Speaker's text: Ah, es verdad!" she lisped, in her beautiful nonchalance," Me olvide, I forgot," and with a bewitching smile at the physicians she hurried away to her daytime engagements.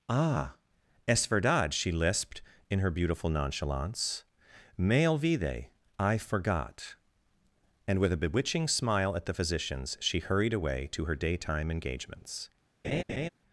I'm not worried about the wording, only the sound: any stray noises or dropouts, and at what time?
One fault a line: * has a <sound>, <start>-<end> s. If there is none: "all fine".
* has a laugh, 12.8-13.3 s